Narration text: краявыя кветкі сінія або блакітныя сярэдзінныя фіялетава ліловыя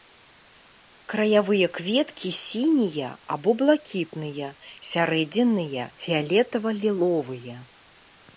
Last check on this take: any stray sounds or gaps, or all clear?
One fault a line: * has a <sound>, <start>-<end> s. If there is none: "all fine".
all fine